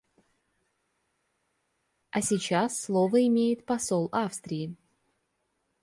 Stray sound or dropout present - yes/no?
no